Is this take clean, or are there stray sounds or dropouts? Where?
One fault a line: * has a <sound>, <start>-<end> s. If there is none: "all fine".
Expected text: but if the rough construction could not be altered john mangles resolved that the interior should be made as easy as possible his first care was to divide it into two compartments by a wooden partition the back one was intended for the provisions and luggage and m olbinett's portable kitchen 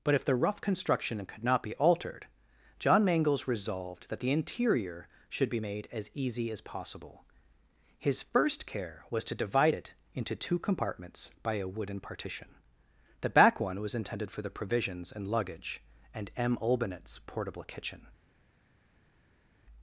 all fine